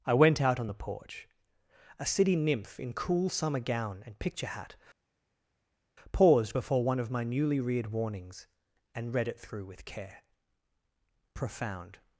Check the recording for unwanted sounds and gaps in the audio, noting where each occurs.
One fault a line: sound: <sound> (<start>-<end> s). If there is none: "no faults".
no faults